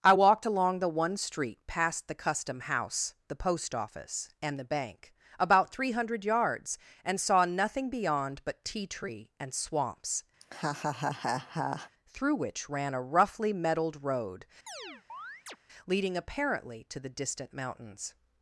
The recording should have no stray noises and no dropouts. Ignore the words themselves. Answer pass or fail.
fail